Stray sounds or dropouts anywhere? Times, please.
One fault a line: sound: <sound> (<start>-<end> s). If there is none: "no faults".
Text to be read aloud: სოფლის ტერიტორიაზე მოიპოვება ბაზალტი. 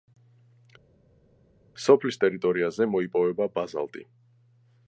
no faults